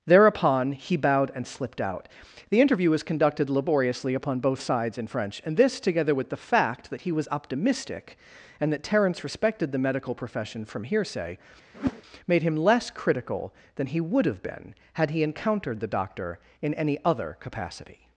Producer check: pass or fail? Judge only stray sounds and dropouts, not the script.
fail